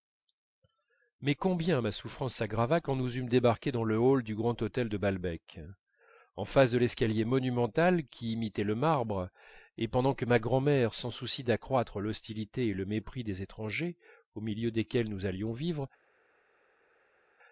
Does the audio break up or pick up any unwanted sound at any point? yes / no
no